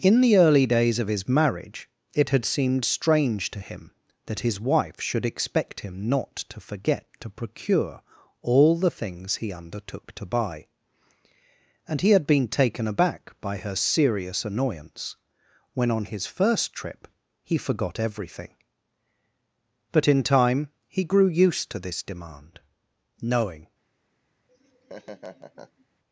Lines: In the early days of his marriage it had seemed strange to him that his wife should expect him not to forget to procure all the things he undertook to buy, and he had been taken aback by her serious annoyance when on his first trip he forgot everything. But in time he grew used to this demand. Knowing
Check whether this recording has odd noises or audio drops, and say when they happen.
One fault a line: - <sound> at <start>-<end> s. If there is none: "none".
- laugh at 24.5-25.9 s